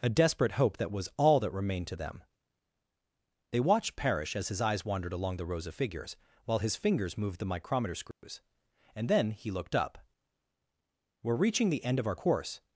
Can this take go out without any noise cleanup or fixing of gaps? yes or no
no